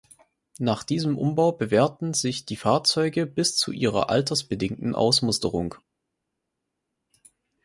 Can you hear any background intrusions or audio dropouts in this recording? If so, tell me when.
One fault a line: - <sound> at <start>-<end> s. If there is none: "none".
none